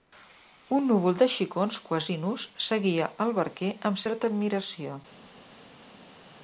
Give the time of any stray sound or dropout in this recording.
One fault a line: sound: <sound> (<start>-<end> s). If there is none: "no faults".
no faults